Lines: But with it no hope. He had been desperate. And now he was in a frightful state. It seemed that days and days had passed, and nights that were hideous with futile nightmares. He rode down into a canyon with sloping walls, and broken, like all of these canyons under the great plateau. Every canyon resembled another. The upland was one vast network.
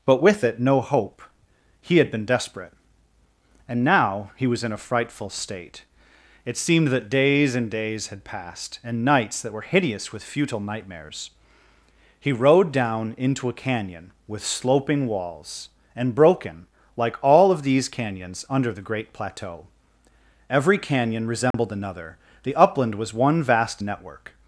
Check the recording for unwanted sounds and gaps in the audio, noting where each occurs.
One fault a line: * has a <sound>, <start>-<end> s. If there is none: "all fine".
* has a dropout, 21.5-21.5 s